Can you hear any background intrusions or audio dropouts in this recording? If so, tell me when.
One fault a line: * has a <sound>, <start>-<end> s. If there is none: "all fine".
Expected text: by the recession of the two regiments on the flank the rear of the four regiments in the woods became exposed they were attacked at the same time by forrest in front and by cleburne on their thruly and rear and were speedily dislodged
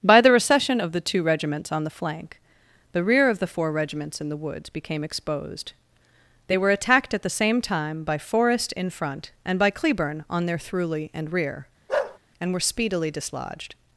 * has a bark, 11.9-12.2 s